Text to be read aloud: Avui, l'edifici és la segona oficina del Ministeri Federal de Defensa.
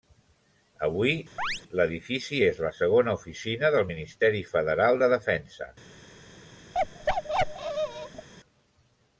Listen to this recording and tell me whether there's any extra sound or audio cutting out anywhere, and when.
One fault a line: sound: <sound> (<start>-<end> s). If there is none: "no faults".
sound: chirp (1.4-1.6 s)
sound: bark (6.7-8.3 s)